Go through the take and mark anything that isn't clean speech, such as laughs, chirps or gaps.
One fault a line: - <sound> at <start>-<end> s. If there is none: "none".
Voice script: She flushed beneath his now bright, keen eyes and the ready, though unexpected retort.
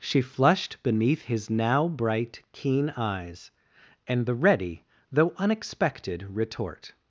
none